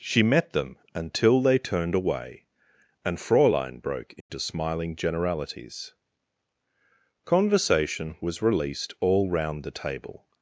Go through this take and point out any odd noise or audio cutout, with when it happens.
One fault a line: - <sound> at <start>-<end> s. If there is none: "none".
- dropout at 4.2-4.3 s